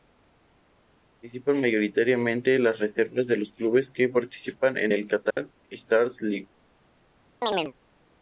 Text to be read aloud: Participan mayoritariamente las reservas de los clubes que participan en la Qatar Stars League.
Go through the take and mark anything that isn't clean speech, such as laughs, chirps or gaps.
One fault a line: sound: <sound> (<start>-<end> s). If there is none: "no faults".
sound: dropout (5.3-5.4 s)
sound: chirp (7.4-7.7 s)